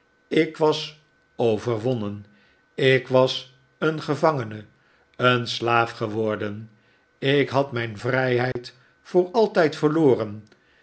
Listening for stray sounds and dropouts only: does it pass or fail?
fail